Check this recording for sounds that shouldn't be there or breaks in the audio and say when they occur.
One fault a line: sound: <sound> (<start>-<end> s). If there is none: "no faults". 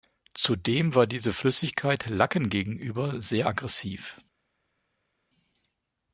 no faults